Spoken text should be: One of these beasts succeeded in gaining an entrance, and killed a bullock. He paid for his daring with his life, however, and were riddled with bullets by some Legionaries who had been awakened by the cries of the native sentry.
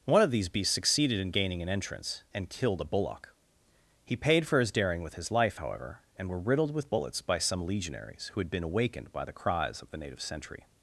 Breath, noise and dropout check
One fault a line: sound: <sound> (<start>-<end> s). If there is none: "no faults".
no faults